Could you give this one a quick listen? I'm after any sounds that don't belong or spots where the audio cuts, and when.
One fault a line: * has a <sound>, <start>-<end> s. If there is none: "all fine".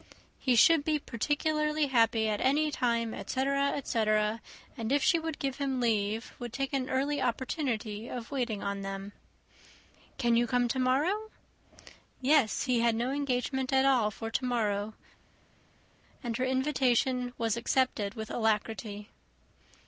all fine